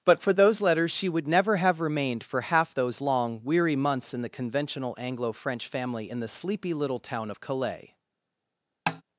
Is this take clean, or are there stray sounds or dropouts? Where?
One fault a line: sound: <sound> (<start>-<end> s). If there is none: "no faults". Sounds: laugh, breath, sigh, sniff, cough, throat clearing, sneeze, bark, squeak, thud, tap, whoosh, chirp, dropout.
sound: tap (8.9-9.0 s)